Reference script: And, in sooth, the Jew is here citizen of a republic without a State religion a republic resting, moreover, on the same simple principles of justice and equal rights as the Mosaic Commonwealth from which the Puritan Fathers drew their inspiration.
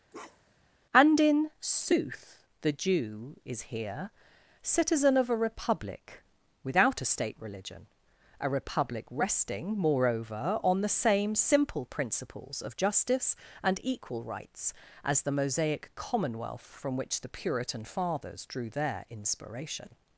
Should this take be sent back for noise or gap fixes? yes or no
yes